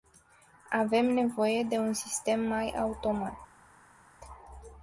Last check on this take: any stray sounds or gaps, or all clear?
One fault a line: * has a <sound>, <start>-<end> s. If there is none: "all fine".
all fine